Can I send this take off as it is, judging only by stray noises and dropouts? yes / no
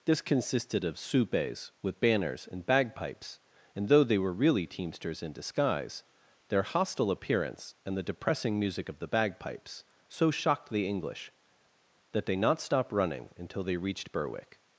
yes